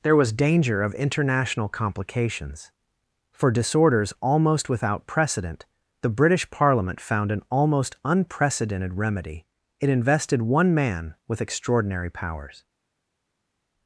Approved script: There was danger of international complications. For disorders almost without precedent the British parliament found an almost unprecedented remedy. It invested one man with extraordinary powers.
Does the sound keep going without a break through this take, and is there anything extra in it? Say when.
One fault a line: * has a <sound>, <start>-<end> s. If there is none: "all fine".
all fine